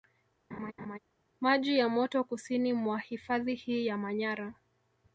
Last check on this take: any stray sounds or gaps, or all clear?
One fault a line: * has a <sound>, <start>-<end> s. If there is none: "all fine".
* has a laugh, 0.5-1.0 s